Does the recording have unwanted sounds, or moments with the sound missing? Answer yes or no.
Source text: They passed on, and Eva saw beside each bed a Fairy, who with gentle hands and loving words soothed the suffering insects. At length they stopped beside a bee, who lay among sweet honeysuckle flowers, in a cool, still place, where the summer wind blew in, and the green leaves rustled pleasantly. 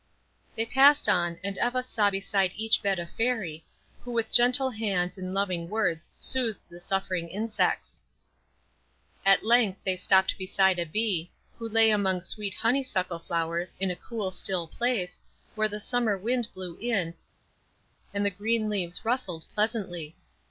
no